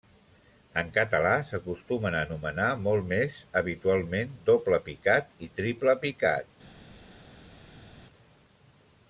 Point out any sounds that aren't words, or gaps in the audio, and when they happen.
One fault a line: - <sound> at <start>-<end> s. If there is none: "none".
none